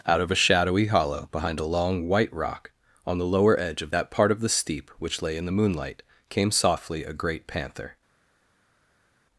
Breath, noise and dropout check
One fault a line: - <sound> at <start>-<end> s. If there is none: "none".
none